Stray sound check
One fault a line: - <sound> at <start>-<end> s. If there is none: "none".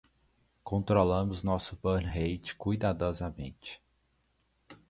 none